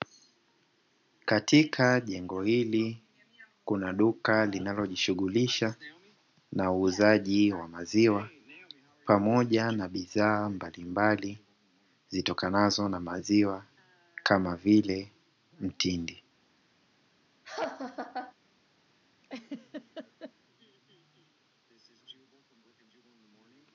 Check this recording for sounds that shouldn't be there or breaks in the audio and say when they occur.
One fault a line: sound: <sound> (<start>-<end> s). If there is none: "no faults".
sound: laugh (17.4-18.3 s)
sound: laugh (19.2-20.3 s)